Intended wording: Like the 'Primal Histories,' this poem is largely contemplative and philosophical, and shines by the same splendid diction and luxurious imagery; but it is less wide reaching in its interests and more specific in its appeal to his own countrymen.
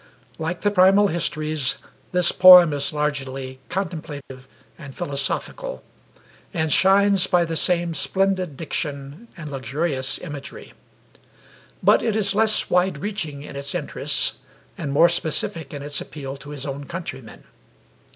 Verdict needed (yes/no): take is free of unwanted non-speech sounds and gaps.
no